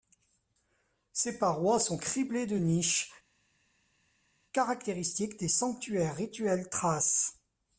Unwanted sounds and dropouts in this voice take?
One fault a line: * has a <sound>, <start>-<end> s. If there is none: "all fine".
all fine